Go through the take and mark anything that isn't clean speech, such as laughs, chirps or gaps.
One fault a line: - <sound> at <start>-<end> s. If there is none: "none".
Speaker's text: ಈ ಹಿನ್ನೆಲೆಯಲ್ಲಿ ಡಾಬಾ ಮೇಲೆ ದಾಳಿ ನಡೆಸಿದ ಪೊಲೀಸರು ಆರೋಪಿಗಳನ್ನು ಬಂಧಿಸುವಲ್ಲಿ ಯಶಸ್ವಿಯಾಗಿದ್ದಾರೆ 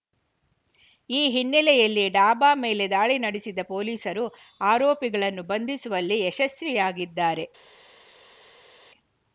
none